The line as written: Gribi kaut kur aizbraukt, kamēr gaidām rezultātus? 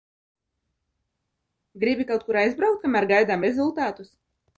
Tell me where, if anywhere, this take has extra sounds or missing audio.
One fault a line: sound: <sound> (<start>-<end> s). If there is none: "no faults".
no faults